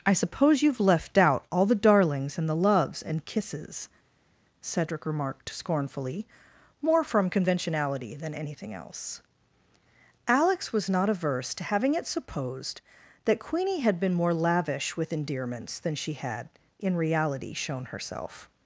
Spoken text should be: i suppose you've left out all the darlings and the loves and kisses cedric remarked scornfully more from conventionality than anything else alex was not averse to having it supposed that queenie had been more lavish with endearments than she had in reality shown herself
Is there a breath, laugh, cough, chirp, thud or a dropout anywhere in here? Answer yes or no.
no